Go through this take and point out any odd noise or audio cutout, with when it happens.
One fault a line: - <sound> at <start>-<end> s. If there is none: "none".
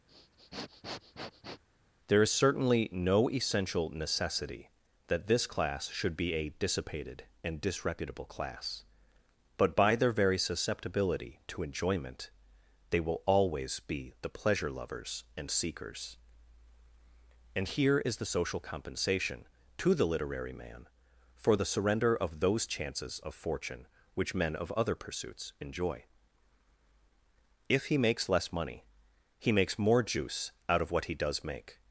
- sniff at 0.1-1.6 s